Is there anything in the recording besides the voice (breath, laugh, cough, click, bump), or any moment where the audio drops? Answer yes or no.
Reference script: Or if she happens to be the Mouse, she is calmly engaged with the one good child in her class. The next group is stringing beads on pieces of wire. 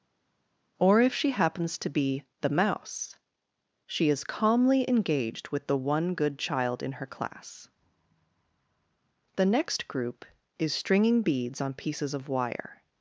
no